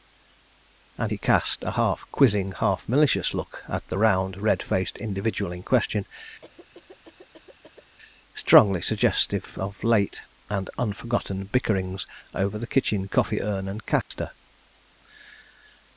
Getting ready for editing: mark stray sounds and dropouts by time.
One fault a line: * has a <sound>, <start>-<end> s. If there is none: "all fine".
* has a cough, 6.4-8.0 s
* has a dropout, 14.0-14.1 s